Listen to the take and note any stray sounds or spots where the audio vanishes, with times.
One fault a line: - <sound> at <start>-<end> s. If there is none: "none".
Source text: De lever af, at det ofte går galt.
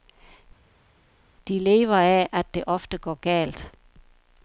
none